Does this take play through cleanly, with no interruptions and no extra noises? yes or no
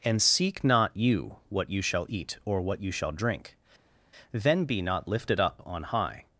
yes